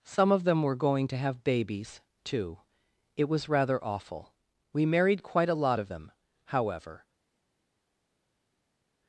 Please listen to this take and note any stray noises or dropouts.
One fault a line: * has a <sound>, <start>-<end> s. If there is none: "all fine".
all fine